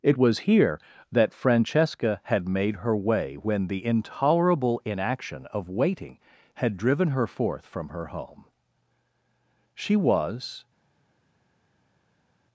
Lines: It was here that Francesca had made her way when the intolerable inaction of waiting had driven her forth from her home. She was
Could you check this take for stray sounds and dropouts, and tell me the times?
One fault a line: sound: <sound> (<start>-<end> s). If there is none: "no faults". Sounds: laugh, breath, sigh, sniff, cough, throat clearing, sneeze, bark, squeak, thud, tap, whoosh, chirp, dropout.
no faults